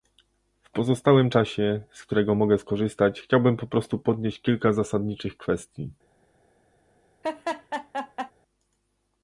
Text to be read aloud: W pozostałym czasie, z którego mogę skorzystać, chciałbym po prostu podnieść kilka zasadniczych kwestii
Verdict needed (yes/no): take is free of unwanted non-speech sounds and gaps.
no